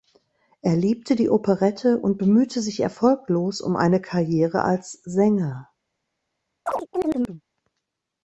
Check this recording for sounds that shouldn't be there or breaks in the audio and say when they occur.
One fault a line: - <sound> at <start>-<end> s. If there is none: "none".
- chirp at 6.7-7.4 s